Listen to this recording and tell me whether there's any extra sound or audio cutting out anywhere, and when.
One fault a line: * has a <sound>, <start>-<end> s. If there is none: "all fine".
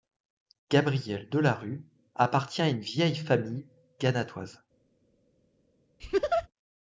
* has a laugh, 6.0-6.5 s